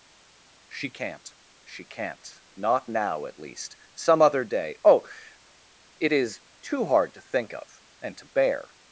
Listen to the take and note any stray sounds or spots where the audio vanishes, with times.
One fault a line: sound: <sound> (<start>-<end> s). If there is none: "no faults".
no faults